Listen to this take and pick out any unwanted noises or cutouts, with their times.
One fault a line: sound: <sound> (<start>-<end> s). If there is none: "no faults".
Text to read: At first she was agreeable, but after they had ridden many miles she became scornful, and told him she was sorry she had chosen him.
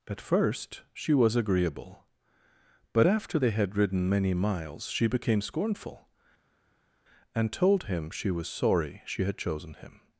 no faults